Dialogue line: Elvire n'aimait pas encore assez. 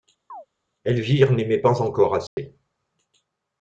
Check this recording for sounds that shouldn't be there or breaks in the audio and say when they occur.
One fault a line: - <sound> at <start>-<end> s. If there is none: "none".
- chirp at 0.3-0.5 s
- dropout at 2.3-2.4 s